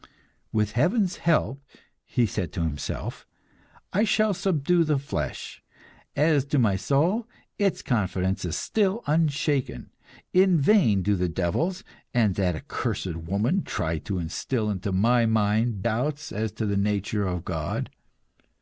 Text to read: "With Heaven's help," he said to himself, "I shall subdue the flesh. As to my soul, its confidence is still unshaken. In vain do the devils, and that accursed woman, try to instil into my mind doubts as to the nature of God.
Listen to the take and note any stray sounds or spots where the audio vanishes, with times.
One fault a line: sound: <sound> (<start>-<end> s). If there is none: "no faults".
no faults